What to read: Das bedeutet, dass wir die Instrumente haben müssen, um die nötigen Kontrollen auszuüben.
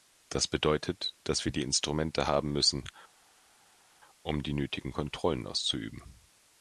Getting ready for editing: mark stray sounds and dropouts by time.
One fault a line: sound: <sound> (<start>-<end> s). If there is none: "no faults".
no faults